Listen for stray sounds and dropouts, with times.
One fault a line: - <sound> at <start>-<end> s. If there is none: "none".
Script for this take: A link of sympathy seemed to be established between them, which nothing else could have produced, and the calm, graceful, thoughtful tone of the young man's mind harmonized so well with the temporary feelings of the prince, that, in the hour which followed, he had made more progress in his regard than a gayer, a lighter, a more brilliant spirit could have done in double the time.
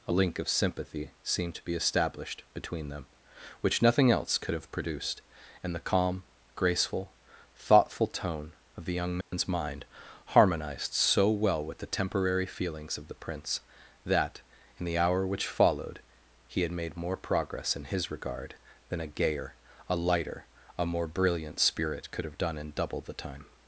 - dropout at 9.2-9.3 s